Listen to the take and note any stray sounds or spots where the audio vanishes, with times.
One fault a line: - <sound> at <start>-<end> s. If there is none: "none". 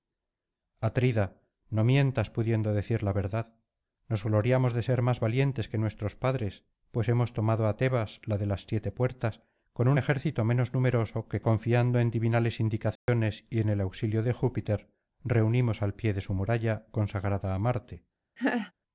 - dropout at 13.0-13.1 s
- laugh at 18.4-18.7 s